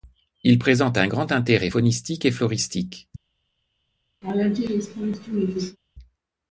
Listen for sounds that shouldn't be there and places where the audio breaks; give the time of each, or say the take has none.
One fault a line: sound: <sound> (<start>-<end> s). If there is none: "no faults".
sound: laugh (4.2-5.8 s)